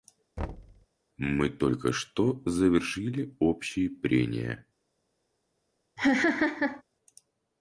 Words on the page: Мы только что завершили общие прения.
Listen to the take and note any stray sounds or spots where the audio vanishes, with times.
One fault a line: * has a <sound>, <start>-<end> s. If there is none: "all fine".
* has a thud, 0.4-0.9 s
* has a laugh, 6.0-6.8 s